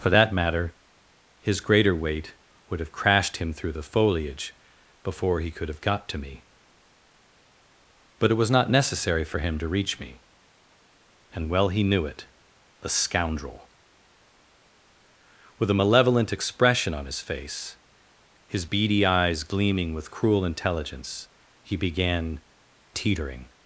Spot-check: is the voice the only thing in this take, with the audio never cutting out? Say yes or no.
yes